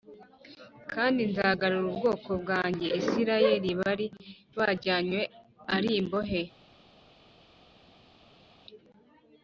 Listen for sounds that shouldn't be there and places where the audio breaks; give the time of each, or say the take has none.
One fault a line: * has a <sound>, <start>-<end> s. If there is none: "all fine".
all fine